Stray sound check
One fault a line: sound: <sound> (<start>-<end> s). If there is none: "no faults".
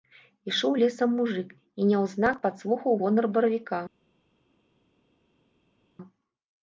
no faults